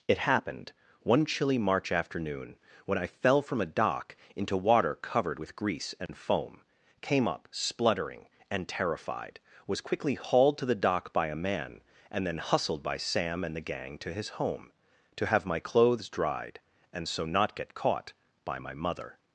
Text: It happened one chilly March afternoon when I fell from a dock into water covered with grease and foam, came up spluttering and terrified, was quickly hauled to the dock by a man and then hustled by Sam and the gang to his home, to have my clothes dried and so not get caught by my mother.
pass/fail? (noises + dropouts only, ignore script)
fail